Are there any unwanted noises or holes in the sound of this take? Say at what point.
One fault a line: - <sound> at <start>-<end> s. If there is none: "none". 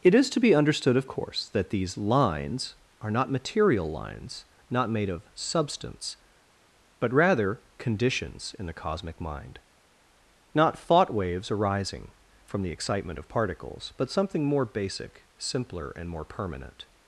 none